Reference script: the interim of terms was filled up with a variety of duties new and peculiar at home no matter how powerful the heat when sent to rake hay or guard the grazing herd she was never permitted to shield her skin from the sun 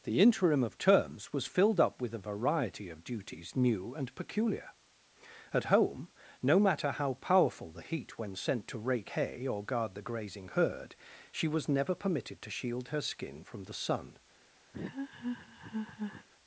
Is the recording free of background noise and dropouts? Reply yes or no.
no